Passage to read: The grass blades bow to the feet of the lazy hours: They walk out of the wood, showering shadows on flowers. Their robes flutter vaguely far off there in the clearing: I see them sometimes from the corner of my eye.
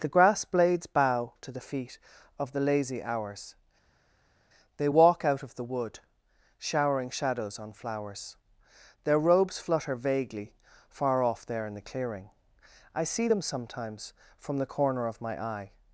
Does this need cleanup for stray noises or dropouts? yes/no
no